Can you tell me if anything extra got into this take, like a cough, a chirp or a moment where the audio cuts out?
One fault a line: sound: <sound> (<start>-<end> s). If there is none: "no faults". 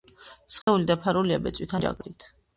sound: dropout (0.6-0.7 s)